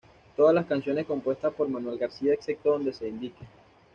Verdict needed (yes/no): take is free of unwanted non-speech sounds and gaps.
yes